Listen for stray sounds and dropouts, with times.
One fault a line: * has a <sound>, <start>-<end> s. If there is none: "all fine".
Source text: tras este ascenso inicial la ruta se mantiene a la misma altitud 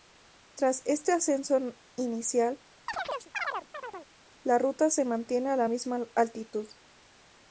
* has a chirp, 2.9-4.1 s